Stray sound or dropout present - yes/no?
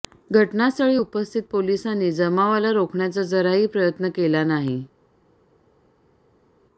no